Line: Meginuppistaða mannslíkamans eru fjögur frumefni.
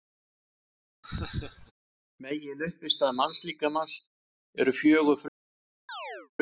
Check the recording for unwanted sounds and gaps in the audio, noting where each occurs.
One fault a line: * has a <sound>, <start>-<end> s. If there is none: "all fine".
* has a laugh, 1.0-1.7 s
* has a chirp, 5.9-6.3 s